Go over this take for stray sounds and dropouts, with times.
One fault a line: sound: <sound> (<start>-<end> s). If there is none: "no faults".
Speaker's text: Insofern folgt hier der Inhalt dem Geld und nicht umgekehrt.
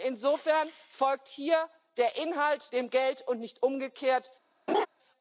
sound: laugh (4.7-4.9 s)